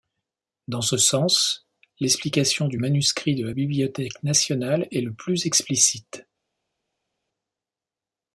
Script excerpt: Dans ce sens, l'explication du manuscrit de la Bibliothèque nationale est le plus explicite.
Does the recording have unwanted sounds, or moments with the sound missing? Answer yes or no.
no